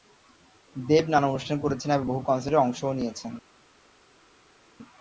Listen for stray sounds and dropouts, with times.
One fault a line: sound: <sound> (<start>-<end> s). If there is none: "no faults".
no faults